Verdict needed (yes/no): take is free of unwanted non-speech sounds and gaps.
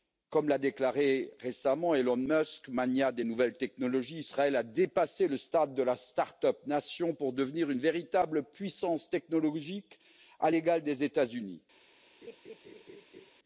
no